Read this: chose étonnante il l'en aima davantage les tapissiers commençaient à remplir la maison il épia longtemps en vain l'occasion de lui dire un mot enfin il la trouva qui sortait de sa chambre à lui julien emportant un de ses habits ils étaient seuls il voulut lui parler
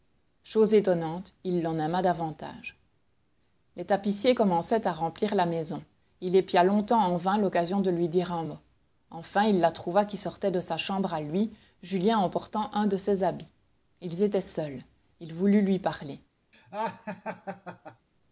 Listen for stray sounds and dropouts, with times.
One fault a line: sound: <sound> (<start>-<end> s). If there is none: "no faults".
sound: laugh (16.5-18.1 s)